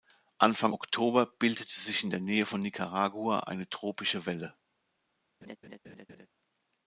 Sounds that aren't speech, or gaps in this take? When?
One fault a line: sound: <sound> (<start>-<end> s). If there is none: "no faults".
sound: laugh (5.4-6.3 s)